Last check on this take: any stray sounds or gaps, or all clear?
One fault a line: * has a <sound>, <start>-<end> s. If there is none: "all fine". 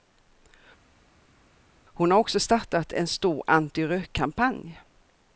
all fine